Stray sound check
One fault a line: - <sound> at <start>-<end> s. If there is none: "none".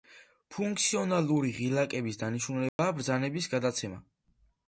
- dropout at 2.7-2.8 s